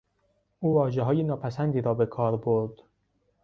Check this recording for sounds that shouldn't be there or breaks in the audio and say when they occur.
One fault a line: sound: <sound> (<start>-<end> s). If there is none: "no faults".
no faults